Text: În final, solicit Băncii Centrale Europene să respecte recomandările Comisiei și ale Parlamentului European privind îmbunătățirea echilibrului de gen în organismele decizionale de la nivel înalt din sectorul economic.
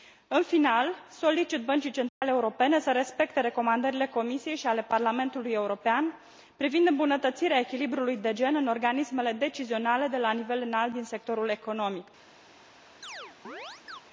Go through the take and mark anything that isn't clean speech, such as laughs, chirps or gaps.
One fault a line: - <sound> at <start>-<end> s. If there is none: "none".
- dropout at 2.1-2.2 s
- chirp at 13.0-14.0 s